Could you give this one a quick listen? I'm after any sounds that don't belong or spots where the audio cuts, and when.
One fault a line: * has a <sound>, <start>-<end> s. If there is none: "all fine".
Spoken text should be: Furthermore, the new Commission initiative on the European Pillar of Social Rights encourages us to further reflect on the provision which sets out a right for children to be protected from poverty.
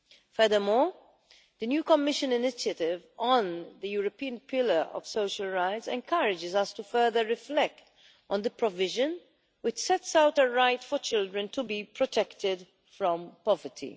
all fine